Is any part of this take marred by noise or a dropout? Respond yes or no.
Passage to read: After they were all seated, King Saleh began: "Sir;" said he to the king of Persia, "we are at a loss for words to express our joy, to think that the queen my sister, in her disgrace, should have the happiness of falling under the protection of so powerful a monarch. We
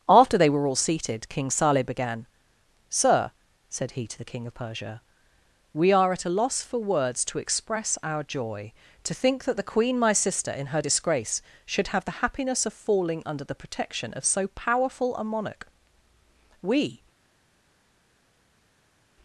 no